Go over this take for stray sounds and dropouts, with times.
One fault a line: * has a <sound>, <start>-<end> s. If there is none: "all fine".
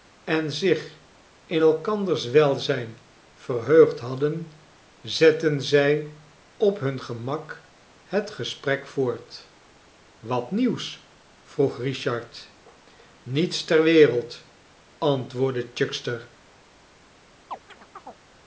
* has a chirp, 17.5-18.2 s